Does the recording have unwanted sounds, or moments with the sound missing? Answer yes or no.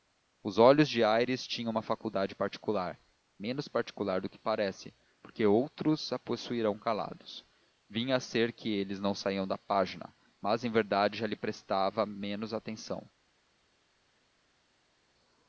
no